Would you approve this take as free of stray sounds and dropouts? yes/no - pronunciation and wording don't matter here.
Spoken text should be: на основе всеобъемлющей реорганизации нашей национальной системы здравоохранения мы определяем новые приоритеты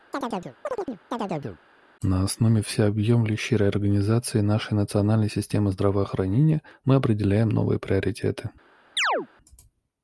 no